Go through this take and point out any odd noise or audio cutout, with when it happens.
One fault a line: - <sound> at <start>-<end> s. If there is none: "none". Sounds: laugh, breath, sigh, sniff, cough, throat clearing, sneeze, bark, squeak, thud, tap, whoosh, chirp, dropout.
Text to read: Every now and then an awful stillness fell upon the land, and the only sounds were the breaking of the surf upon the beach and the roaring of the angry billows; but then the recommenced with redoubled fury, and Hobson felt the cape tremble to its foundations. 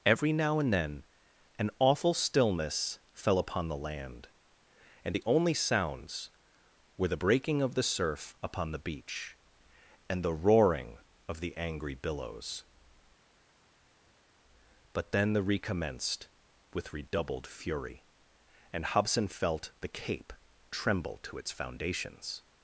none